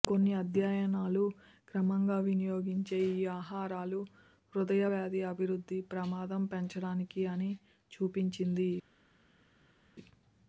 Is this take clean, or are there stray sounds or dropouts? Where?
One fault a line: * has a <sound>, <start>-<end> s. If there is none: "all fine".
all fine